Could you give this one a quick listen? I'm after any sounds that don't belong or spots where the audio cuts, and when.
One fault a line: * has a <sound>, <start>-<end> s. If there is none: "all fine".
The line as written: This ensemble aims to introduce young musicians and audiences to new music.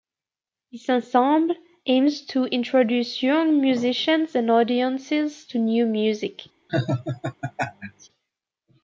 * has a laugh, 6.7-8.1 s